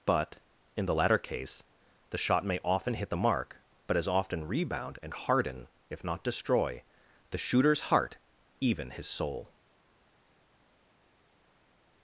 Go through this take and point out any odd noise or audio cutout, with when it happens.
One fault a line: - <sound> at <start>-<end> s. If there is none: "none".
none